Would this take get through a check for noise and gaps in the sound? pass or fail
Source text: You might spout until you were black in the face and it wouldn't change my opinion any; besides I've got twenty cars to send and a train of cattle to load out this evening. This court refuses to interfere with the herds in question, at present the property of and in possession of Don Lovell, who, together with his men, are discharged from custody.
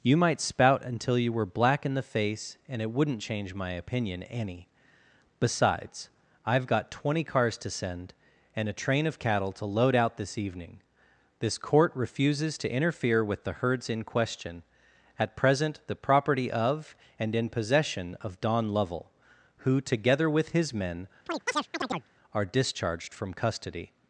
fail